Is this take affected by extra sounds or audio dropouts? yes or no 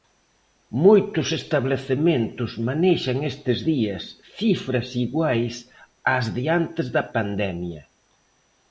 no